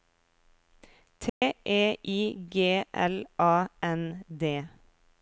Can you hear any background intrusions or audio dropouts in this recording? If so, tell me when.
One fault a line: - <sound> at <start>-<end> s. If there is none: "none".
- dropout at 1.3-1.4 s